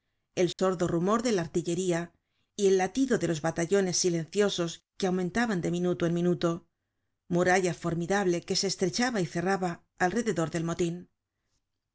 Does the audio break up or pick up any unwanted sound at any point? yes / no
yes